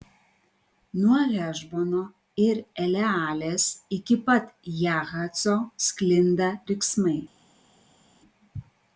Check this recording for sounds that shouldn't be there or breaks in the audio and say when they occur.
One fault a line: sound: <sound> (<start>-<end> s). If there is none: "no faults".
no faults